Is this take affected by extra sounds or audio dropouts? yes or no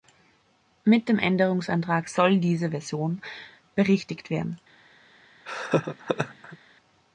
yes